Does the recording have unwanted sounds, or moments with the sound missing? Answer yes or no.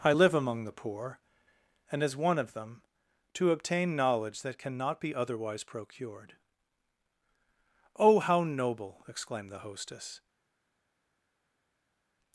no